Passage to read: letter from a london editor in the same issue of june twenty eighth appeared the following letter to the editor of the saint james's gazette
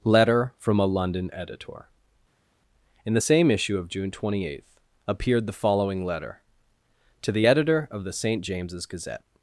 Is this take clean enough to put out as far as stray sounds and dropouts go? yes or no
yes